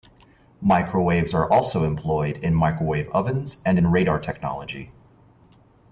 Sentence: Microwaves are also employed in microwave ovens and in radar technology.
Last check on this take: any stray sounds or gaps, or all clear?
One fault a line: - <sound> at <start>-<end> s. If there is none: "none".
none